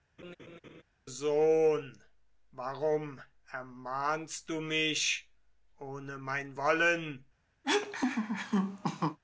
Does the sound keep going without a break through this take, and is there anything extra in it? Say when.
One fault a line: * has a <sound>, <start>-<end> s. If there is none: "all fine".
* has a laugh, 0.2-0.8 s
* has a laugh, 7.6-9.2 s